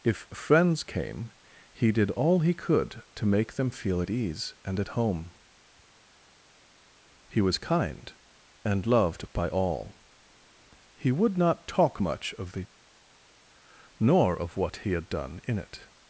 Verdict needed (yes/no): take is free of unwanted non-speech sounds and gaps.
yes